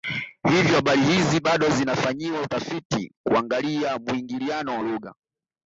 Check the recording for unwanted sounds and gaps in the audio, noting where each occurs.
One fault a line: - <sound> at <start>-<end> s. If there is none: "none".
none